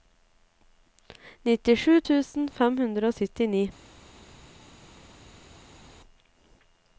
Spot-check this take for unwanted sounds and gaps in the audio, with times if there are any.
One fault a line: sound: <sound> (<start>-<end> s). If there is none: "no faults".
no faults